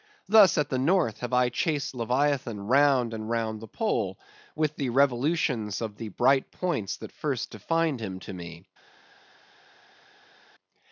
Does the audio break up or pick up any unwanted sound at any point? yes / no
no